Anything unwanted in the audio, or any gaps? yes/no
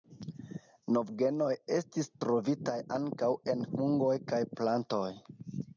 no